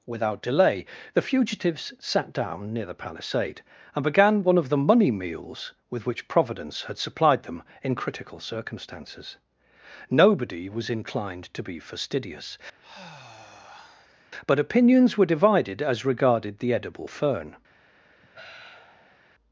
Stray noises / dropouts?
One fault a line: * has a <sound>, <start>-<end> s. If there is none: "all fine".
* has a sigh, 12.8-14.3 s
* has a sigh, 18.2-19.2 s